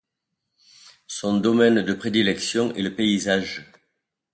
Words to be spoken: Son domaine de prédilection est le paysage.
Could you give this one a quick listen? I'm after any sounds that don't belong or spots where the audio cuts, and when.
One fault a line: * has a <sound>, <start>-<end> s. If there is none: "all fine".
all fine